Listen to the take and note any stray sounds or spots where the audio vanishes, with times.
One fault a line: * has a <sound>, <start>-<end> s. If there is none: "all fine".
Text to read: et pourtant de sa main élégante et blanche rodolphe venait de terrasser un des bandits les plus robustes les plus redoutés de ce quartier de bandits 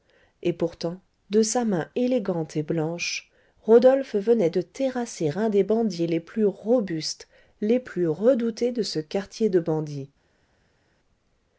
all fine